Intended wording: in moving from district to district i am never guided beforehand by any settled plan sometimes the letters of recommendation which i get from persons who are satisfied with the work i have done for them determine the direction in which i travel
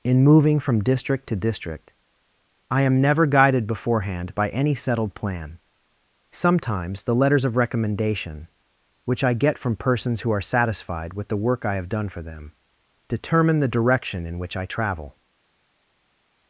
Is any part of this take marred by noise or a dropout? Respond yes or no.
no